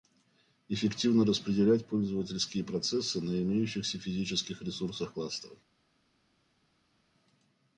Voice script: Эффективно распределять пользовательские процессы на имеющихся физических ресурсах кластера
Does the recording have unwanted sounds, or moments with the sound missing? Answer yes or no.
no